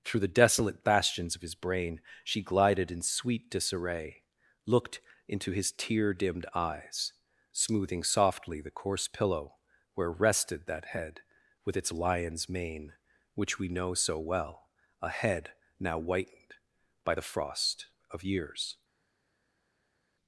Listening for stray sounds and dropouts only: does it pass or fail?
pass